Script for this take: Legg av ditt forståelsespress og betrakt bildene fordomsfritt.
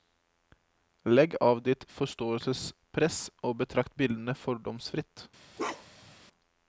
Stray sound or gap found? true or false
true